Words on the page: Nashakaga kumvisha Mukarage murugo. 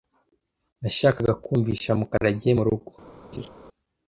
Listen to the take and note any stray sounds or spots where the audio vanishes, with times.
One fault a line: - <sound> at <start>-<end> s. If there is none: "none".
- laugh at 3.3-3.5 s